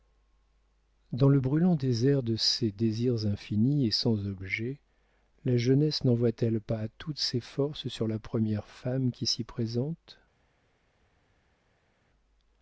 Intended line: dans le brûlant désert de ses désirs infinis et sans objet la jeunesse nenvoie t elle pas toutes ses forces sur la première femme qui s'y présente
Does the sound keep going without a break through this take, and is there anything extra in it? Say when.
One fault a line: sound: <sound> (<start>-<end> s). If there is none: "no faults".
no faults